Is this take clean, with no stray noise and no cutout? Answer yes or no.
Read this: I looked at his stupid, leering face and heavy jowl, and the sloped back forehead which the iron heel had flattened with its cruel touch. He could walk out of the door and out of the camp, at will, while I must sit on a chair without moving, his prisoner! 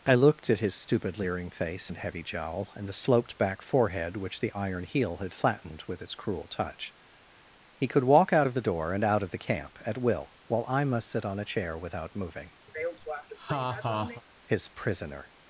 no